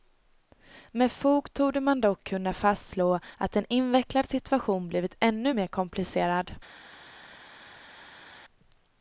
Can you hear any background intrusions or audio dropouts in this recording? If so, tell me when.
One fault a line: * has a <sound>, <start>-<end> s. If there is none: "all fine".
all fine